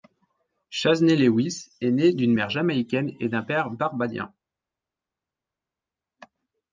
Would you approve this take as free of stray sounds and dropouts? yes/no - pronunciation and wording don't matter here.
yes